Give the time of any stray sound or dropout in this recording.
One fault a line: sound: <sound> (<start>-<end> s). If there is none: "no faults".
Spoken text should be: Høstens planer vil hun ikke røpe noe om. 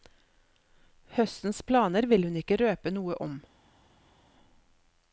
no faults